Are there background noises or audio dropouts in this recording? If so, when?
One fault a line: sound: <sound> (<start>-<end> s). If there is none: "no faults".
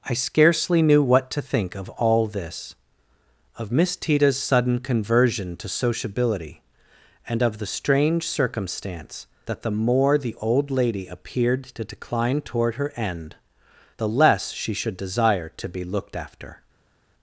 no faults